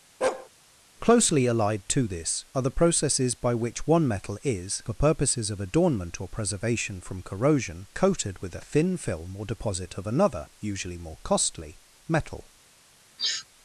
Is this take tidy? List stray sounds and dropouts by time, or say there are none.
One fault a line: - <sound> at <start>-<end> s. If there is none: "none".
- bark at 0.2-0.5 s
- sniff at 13.2-13.5 s